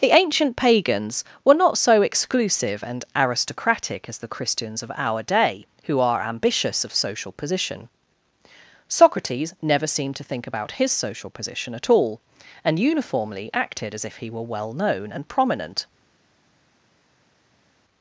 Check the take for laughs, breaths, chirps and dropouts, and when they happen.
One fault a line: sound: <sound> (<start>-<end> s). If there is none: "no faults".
no faults